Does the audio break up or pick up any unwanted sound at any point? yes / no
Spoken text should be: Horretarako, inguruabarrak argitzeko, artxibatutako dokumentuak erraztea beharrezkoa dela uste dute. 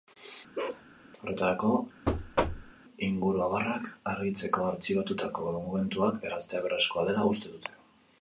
yes